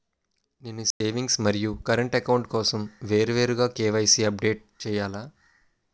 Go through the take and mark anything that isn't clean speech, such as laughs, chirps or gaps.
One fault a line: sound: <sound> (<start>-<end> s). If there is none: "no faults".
sound: dropout (0.9-1.0 s)